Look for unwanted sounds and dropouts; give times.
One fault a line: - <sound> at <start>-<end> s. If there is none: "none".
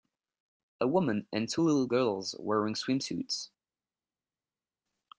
none